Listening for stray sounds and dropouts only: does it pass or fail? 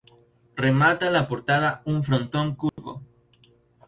fail